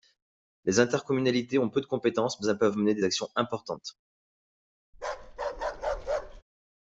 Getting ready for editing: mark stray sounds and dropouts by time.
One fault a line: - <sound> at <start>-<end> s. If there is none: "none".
- bark at 4.9-6.4 s